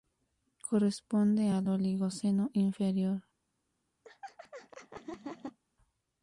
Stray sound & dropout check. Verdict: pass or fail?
fail